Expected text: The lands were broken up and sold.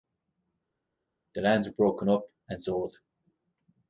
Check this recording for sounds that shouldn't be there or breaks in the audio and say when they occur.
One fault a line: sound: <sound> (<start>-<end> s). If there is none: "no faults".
no faults